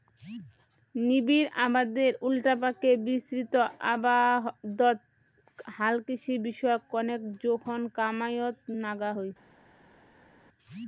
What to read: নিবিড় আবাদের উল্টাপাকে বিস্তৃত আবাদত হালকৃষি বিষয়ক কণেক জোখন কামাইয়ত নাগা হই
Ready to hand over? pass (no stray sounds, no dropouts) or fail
pass